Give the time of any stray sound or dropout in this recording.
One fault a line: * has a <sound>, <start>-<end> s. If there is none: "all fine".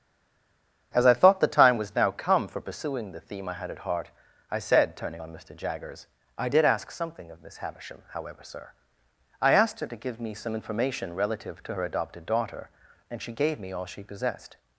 all fine